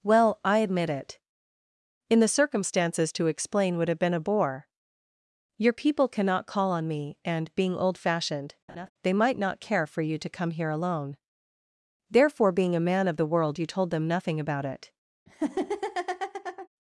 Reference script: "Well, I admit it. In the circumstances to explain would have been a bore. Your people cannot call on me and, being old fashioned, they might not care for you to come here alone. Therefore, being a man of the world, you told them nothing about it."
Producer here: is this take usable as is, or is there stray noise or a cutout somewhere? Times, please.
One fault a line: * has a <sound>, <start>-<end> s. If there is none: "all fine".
* has a laugh, 8.7-8.9 s
* has a laugh, 15.3-16.7 s